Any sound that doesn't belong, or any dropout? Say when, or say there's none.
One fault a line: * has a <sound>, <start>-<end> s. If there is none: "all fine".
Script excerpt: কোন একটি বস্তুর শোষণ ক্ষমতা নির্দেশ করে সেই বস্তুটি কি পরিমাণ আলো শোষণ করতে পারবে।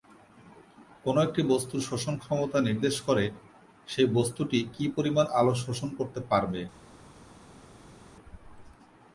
all fine